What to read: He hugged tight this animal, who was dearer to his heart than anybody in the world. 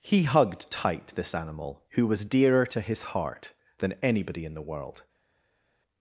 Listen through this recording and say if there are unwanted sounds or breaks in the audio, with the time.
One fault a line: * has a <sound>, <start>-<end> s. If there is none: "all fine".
all fine